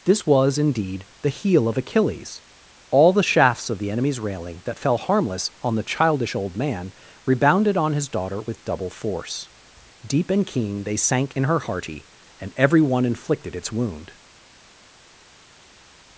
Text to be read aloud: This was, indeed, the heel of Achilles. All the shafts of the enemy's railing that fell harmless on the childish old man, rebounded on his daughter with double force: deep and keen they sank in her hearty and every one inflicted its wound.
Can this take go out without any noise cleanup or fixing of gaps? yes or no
yes